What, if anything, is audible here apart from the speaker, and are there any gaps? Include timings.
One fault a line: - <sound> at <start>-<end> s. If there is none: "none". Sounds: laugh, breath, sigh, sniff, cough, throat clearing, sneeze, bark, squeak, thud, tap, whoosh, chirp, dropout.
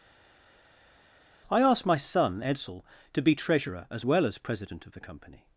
none